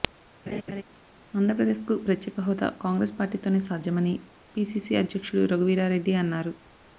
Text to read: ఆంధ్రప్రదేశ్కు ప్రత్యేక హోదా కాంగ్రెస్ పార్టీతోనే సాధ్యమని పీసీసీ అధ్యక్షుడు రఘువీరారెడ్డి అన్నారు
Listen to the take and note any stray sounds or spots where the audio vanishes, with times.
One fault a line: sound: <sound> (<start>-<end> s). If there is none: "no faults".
sound: laugh (0.5-0.8 s)